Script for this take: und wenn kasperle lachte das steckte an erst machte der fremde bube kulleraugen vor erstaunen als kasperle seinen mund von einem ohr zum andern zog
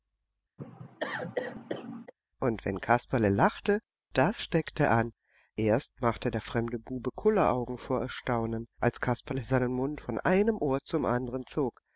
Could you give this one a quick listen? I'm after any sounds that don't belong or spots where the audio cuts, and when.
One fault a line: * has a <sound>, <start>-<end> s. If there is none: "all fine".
* has a cough, 0.6-2.1 s